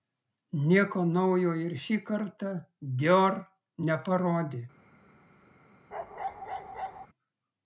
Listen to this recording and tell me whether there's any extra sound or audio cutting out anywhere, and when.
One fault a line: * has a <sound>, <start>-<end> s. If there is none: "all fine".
* has a bark, 5.9-7.1 s